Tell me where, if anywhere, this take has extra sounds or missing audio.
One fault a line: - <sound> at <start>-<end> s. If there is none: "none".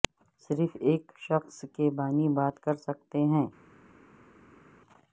none